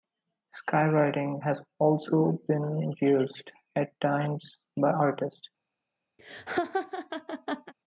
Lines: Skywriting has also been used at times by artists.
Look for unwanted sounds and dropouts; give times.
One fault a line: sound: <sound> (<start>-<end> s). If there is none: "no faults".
sound: laugh (6.2-7.7 s)